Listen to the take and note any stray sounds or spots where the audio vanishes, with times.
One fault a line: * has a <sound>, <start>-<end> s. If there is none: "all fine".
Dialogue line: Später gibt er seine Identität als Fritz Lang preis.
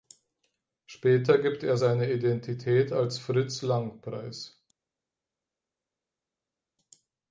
all fine